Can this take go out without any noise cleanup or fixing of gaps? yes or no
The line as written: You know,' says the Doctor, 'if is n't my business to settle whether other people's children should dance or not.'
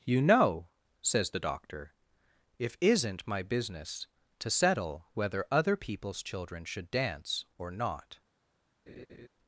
no